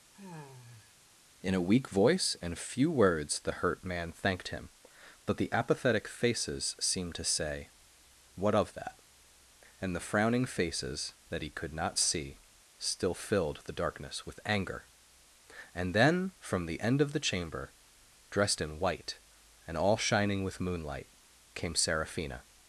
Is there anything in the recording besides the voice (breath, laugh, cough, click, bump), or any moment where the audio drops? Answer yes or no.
yes